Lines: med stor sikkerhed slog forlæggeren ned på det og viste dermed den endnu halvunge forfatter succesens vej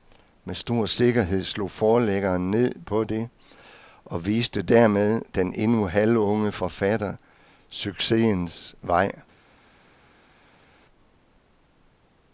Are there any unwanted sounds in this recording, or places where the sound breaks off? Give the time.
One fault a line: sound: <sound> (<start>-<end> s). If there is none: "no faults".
no faults